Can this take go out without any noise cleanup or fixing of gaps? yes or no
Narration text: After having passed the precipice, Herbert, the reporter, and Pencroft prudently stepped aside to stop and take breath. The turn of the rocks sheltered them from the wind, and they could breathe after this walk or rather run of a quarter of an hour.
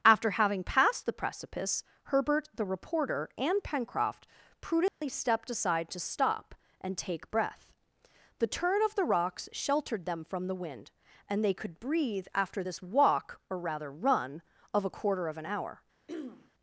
no